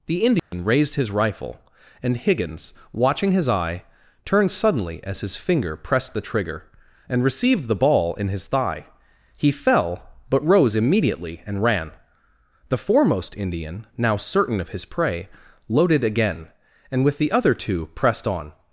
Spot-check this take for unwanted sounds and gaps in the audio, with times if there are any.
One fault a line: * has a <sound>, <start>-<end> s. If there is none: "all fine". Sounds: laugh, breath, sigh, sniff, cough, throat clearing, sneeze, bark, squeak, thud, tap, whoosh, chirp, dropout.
* has a dropout, 0.4-0.5 s